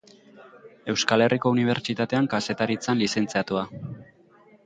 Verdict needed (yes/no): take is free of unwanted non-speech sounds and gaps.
yes